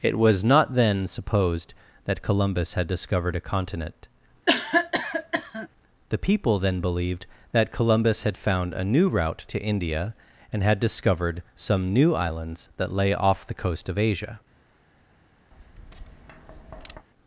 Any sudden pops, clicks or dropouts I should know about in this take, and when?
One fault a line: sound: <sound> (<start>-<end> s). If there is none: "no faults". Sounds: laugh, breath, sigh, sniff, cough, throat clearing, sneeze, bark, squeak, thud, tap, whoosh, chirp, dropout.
sound: cough (4.5-5.7 s)
sound: tap (15.5-17.1 s)